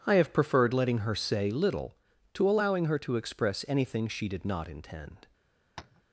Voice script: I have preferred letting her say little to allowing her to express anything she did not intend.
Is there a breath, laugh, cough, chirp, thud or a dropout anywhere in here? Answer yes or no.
yes